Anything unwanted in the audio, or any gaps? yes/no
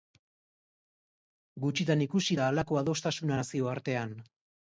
no